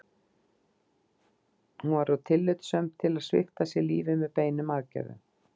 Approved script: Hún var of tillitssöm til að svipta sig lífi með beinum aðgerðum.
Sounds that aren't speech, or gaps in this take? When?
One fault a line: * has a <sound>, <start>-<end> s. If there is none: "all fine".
all fine